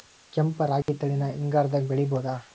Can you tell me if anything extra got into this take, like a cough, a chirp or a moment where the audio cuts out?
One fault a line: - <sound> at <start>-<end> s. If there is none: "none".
- dropout at 0.8-0.9 s